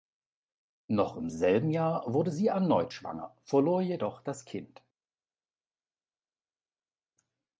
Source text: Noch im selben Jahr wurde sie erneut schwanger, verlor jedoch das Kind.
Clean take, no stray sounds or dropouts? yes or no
yes